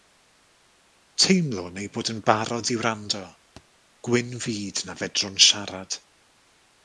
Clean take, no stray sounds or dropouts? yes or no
no